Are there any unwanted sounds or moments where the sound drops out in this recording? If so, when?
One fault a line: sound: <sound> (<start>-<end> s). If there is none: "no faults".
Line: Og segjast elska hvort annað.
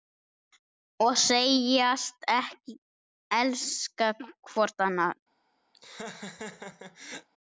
sound: laugh (5.7-7.3 s)